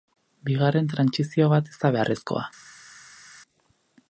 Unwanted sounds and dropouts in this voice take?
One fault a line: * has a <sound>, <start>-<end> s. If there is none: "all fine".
all fine